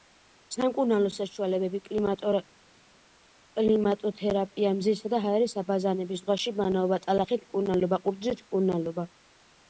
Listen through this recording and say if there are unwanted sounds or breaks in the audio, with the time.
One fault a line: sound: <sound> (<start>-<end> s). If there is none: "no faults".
no faults